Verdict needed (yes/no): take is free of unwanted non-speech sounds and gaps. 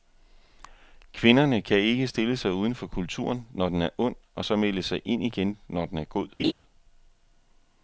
no